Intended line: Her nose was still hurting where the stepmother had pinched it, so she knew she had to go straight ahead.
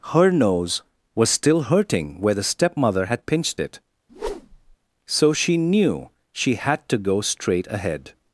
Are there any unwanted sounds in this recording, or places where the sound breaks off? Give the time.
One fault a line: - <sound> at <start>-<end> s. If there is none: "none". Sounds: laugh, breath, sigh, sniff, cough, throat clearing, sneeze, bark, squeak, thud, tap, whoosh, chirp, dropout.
- whoosh at 4.1-4.8 s